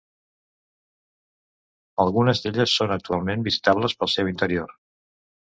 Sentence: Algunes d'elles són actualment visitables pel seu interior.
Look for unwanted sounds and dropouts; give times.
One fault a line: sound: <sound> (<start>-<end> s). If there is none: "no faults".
no faults